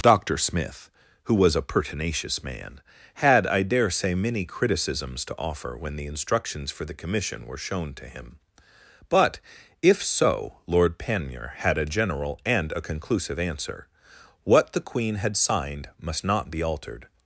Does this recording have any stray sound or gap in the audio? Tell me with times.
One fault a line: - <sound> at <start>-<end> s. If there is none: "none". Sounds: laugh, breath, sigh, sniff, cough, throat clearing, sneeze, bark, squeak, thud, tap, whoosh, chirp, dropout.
none